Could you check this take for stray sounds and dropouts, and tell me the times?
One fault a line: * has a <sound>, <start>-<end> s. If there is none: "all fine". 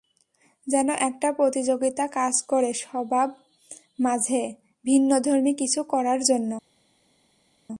all fine